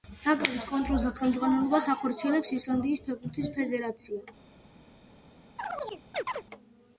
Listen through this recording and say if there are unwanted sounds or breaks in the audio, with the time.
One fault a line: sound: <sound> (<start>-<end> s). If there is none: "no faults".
sound: chirp (5.6-6.4 s)